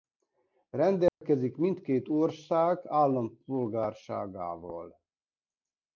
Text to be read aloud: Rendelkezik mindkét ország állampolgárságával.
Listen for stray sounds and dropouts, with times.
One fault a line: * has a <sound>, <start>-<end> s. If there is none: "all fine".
* has a dropout, 1.1-1.2 s